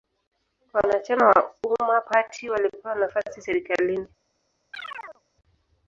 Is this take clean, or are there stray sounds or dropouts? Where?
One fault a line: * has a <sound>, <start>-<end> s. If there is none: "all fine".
* has a chirp, 4.7-5.2 s